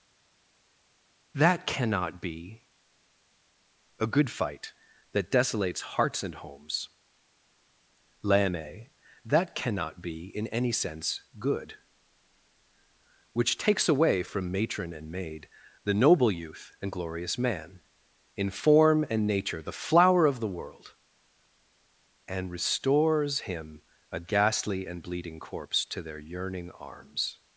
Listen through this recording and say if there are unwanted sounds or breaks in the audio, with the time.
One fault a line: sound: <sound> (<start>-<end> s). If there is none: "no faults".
no faults